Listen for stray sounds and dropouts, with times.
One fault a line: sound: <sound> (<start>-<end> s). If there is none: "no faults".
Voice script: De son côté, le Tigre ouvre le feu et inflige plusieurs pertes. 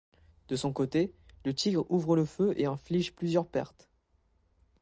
no faults